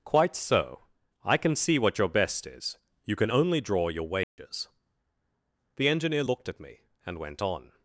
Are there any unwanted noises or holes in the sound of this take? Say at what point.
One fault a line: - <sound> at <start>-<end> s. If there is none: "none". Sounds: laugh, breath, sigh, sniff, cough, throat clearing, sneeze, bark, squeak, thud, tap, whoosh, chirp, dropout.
- dropout at 4.2-4.4 s